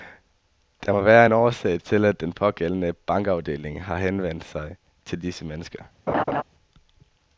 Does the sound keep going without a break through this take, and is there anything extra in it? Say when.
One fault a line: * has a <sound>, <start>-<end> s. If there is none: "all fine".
* has a laugh, 6.1-6.4 s